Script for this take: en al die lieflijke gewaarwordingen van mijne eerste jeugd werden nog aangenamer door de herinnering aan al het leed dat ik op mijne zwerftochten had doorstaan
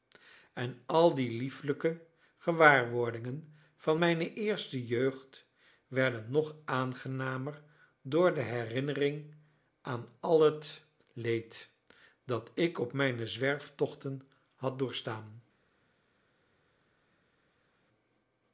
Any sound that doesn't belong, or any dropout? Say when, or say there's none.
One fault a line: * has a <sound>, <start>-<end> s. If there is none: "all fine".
all fine